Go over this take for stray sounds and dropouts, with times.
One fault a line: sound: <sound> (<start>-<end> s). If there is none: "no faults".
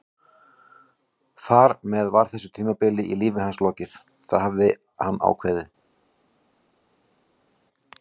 no faults